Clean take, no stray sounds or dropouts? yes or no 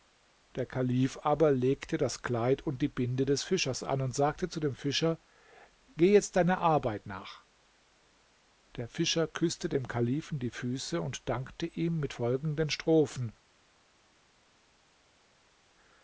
yes